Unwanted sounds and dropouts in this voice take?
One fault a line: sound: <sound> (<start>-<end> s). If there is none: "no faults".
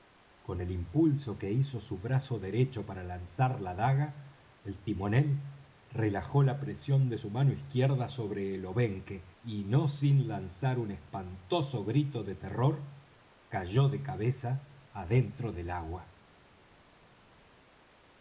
no faults